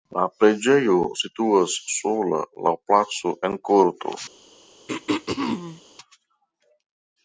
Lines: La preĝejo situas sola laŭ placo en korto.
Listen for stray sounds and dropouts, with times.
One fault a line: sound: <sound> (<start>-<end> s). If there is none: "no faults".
sound: throat clearing (4.9-5.8 s)